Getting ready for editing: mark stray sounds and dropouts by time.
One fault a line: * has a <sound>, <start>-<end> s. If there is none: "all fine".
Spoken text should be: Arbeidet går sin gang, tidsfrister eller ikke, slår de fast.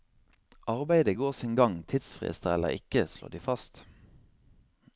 all fine